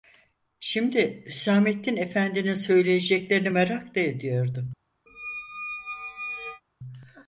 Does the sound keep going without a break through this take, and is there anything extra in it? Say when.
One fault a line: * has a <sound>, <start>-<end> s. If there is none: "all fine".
* has a squeak, 5.1-6.6 s